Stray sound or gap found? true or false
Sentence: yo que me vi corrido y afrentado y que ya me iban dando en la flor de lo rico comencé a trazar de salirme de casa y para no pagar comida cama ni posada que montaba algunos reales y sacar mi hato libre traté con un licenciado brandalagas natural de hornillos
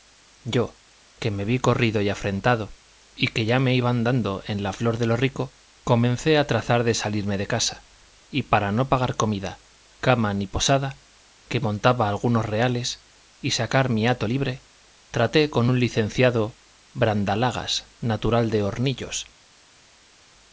false